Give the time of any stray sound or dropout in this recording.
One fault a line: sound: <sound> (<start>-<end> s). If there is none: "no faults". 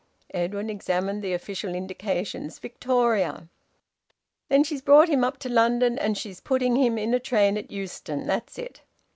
no faults